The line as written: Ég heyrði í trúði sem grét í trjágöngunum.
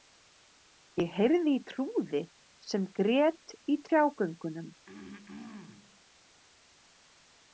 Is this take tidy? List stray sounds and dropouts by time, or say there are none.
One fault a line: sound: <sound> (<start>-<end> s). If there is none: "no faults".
sound: throat clearing (4.8-6.0 s)